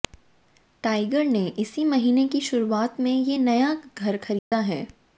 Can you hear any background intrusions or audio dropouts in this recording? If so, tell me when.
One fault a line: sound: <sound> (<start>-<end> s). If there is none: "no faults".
sound: dropout (4.4-4.5 s)